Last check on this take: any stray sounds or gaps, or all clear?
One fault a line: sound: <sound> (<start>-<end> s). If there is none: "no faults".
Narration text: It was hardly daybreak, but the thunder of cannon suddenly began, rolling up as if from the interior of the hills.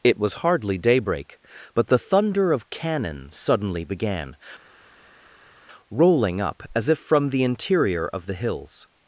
no faults